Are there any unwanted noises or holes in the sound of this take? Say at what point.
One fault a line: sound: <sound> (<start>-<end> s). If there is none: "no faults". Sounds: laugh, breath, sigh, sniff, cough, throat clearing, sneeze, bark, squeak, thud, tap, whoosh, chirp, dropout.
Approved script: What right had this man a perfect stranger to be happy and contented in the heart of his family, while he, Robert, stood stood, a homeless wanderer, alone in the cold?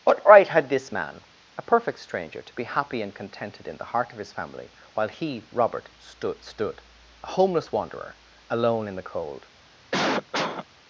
sound: cough (9.9-10.7 s)